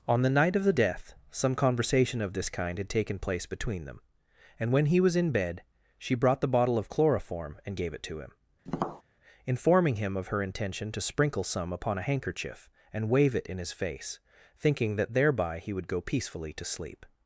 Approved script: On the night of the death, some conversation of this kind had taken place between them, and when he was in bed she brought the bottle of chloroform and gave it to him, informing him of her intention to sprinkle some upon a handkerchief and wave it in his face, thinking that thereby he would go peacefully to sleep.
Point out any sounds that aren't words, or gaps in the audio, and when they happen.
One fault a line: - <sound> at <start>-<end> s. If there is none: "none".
- tap at 8.7-9.0 s